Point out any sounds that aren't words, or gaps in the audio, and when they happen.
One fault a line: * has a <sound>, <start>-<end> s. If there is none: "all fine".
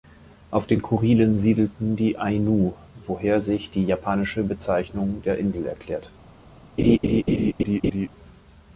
* has a laugh, 6.8-8.1 s